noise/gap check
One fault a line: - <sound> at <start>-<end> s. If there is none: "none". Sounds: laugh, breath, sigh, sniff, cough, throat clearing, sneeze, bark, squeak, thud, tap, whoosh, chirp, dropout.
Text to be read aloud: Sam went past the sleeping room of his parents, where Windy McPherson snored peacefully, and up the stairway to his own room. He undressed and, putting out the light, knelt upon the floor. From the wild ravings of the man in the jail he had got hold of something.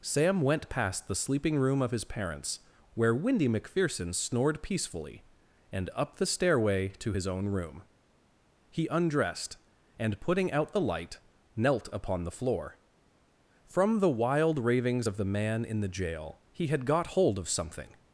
none